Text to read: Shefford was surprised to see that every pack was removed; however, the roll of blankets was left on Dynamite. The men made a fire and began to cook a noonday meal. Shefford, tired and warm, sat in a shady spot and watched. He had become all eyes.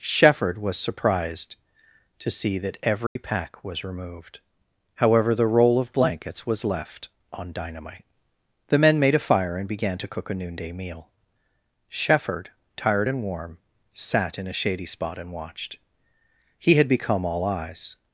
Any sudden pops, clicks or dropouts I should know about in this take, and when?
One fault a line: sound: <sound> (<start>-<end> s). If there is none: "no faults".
sound: dropout (3.1-3.2 s)